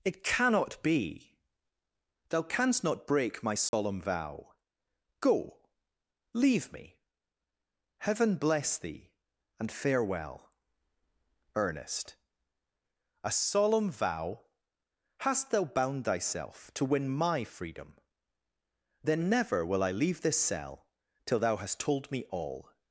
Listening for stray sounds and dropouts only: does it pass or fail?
fail